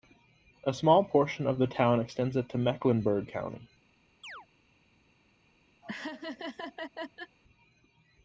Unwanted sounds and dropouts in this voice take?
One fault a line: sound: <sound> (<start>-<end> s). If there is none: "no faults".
sound: chirp (4.2-4.5 s)
sound: laugh (5.8-7.4 s)